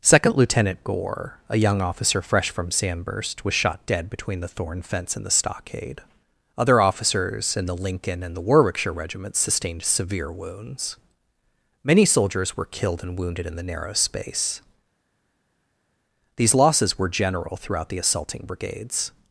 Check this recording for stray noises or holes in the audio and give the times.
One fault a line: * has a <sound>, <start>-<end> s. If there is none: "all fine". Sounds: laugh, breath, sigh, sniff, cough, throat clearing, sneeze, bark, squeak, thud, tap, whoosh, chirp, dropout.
all fine